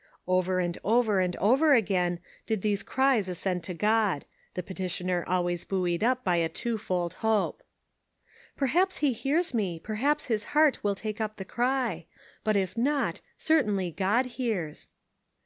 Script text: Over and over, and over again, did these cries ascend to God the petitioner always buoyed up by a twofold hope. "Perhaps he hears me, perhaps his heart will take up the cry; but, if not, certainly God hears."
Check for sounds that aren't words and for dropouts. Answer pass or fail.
pass